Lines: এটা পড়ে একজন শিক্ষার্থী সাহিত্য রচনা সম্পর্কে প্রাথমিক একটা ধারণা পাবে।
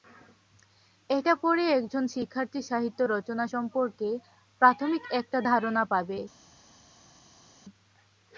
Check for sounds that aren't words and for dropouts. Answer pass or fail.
pass